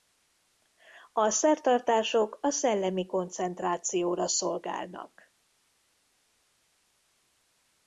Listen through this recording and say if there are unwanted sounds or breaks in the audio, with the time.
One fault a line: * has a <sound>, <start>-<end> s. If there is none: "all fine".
all fine